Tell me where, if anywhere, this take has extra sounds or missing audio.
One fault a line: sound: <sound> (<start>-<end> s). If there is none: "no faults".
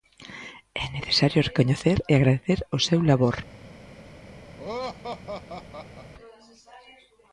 sound: laugh (4.6-6.1 s)